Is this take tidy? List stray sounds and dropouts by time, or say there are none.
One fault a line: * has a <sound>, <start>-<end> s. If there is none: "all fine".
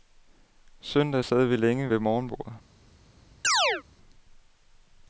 * has a chirp, 3.4-3.8 s